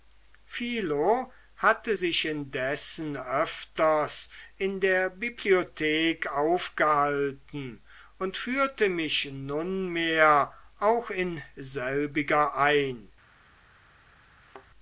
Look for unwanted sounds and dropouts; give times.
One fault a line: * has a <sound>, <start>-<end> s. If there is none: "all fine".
* has a thud, 14.4-14.7 s